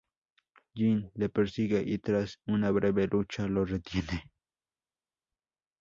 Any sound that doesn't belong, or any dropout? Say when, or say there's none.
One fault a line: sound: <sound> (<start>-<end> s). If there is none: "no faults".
no faults